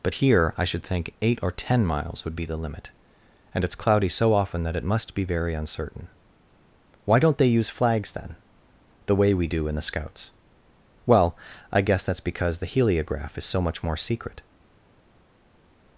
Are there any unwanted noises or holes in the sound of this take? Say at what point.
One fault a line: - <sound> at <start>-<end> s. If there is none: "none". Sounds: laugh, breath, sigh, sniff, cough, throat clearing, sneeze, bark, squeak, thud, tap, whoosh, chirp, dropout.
none